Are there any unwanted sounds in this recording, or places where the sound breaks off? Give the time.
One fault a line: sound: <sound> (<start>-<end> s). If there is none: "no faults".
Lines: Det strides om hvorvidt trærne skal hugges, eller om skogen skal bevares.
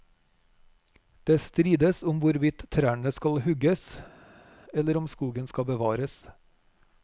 no faults